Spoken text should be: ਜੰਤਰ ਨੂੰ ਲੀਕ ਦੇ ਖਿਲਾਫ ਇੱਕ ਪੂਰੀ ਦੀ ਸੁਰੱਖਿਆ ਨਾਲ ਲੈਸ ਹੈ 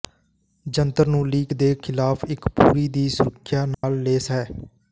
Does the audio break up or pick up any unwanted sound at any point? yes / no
yes